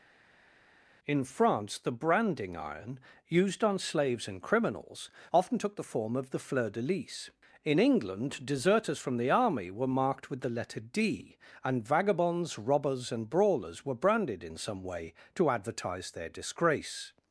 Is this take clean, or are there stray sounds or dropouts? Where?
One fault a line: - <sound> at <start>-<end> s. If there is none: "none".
none